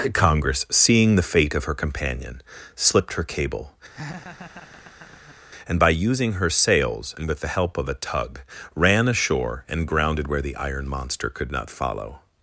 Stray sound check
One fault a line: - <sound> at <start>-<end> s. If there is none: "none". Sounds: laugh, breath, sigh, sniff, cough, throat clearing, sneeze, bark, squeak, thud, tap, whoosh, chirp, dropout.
- laugh at 3.9-5.4 s